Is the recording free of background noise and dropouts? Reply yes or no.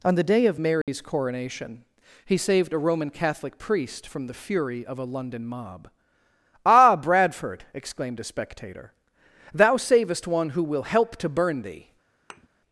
no